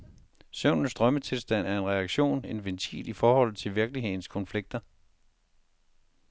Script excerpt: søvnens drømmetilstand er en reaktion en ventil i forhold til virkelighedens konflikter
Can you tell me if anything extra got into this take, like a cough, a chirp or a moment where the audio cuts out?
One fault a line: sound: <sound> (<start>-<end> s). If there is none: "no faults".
no faults